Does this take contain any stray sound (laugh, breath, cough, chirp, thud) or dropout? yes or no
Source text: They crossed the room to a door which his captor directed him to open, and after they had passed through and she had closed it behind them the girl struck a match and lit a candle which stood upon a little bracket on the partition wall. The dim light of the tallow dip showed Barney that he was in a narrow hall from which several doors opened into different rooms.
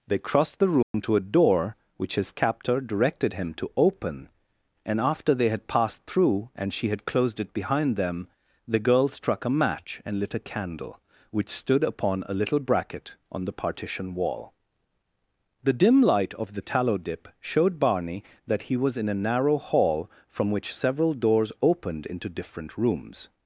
yes